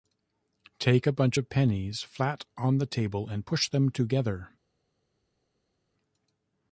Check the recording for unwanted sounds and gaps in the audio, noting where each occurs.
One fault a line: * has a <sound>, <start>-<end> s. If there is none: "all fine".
all fine